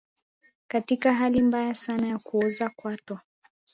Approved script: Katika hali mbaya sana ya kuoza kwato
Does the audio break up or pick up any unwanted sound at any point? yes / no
no